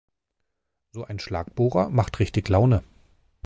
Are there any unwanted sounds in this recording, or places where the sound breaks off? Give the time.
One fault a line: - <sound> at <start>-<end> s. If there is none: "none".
none